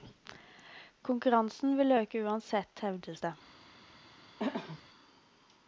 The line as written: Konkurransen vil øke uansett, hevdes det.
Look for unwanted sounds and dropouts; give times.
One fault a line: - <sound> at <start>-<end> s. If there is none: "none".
- throat clearing at 4.4-4.8 s